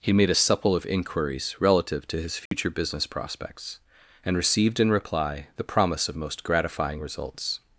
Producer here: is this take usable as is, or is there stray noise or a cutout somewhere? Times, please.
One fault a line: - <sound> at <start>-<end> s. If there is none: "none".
- dropout at 2.5-2.5 s